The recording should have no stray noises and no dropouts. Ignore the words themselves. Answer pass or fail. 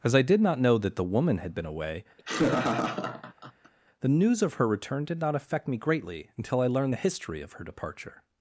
fail